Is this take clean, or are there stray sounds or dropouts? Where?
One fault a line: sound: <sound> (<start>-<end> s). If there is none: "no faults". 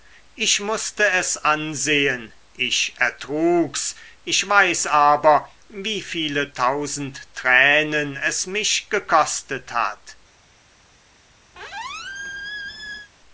sound: squeak (11.5-13.1 s)